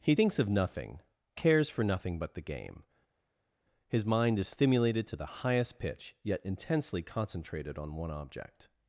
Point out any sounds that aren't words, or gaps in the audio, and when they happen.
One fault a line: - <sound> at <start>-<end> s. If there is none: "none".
none